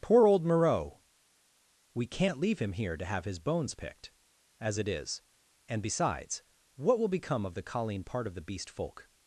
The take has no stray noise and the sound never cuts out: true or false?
true